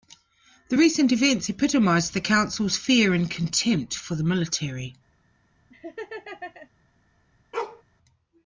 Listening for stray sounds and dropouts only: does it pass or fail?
fail